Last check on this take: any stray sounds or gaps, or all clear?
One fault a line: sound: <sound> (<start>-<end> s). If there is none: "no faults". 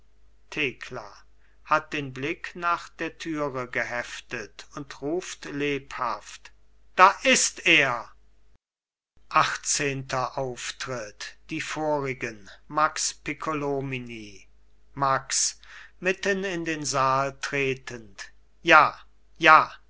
no faults